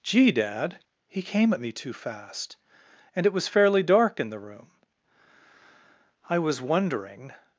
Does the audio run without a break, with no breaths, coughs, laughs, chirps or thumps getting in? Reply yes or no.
yes